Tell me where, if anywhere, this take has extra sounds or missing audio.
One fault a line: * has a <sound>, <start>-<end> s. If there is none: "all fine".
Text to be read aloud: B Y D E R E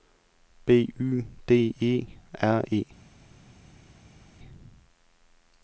all fine